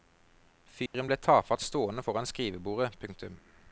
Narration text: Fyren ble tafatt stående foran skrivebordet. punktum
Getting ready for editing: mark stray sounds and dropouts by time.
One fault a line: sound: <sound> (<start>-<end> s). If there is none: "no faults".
sound: dropout (0.9-0.9 s)